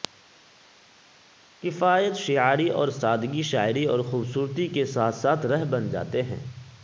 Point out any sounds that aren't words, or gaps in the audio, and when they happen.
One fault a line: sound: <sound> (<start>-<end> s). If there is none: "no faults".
no faults